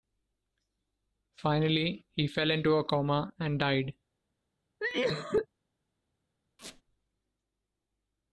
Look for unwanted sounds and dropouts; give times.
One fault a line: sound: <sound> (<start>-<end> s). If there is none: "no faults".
sound: cough (4.8-5.5 s)
sound: squeak (6.6-6.8 s)